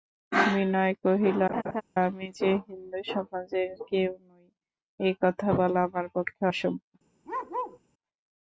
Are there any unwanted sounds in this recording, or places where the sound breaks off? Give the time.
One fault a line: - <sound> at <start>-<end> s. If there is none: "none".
- laugh at 1.5-1.8 s
- bark at 7.2-7.8 s